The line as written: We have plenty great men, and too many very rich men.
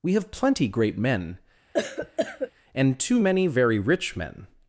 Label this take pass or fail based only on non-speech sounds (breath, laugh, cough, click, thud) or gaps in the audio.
fail